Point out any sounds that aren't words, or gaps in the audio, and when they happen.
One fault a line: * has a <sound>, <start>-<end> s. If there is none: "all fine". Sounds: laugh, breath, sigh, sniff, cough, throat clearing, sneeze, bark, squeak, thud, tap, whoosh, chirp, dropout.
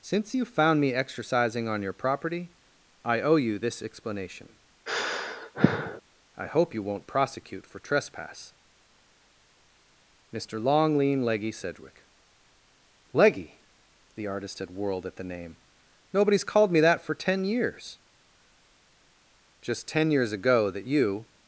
* has a sigh, 4.9-6.0 s